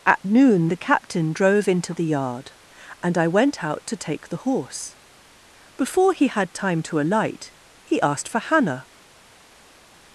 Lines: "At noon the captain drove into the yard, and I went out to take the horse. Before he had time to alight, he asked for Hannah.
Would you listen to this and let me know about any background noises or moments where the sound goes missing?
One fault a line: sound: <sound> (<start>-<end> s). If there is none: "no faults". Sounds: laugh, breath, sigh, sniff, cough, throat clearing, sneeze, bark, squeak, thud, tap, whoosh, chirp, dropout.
no faults